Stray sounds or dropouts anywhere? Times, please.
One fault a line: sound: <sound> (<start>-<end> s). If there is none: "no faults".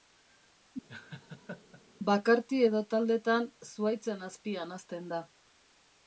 sound: laugh (0.9-1.8 s)